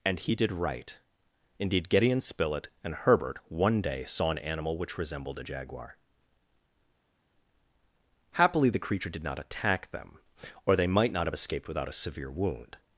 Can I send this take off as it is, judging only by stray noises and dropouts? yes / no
yes